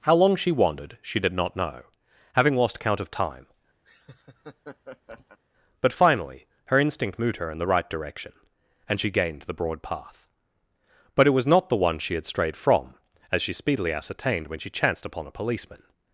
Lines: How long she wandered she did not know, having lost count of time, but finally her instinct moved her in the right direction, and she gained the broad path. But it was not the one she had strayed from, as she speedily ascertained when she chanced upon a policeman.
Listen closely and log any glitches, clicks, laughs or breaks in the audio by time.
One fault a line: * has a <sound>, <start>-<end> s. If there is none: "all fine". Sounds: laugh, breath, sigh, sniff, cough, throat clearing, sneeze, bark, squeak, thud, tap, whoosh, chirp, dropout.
* has a laugh, 3.8-5.4 s